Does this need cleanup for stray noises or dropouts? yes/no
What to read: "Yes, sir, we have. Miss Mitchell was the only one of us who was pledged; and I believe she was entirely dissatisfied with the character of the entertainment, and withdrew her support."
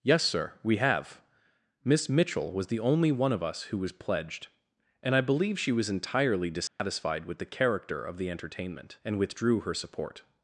yes